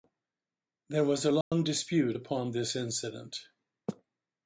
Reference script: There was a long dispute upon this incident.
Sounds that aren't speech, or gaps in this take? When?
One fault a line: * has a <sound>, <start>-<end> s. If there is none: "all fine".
* has a dropout, 1.4-1.5 s